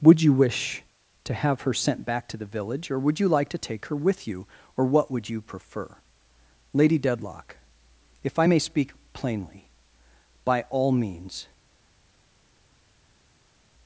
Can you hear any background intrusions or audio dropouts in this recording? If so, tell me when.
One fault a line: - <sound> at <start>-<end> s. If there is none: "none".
none